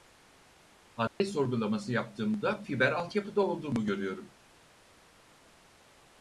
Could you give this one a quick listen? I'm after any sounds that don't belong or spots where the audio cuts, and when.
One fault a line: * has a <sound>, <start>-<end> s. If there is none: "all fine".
* has a dropout, 1.1-1.2 s